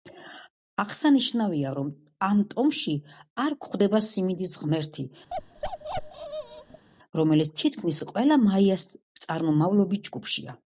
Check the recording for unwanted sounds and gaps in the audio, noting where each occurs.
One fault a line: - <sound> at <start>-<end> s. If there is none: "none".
- bark at 5.3-6.8 s